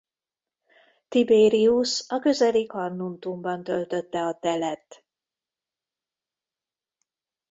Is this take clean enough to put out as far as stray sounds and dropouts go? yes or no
yes